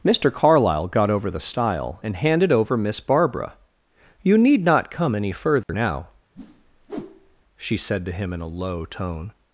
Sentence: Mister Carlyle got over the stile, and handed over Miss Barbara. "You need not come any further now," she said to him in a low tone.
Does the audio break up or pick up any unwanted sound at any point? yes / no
yes